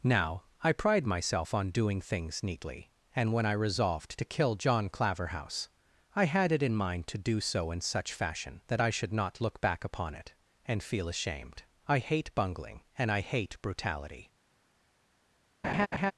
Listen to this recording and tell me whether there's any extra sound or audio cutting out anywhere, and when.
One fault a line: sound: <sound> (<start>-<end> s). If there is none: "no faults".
sound: laugh (15.6-16.1 s)